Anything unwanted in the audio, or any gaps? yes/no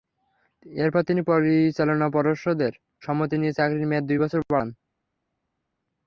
no